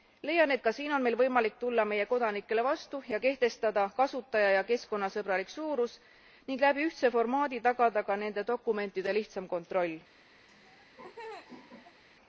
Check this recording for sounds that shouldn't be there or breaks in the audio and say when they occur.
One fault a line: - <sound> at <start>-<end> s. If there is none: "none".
- laugh at 10.5-12.0 s